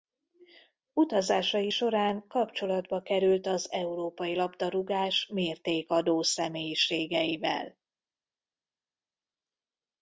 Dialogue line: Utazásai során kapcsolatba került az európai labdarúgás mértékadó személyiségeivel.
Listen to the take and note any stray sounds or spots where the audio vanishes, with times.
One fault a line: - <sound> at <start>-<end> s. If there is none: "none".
none